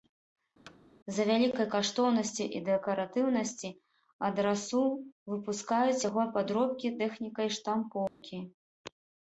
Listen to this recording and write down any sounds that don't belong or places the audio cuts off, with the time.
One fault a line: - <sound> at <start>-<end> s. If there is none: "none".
- thud at 0.7-0.8 s
- dropout at 8.1-8.2 s